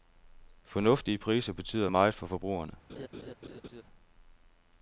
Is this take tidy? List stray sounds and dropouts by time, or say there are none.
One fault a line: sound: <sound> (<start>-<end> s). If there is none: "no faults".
sound: laugh (2.9-3.8 s)